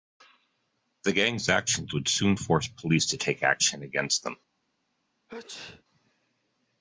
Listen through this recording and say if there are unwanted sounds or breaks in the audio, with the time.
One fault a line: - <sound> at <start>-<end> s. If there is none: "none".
- sneeze at 5.3-5.8 s